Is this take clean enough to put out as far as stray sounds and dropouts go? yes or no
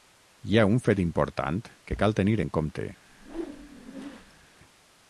no